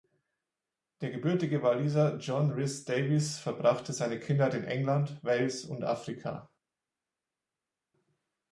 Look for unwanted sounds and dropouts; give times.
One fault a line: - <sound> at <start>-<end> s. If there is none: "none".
none